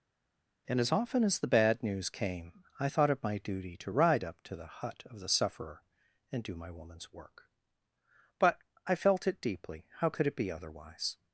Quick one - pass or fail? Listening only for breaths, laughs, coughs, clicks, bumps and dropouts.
pass